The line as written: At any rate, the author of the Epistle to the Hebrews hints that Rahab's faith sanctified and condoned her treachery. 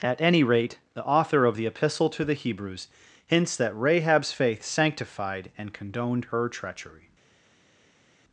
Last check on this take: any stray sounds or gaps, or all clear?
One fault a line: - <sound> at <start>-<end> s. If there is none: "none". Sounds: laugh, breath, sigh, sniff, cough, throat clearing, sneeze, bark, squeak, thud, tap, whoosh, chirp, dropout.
none